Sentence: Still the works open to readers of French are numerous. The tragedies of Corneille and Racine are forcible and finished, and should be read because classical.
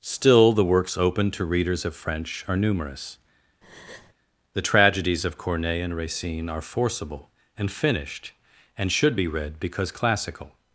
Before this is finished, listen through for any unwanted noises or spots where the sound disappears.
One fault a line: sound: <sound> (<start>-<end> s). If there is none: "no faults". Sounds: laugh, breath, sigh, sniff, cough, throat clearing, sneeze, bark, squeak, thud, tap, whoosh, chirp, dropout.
sound: breath (3.6-4.1 s)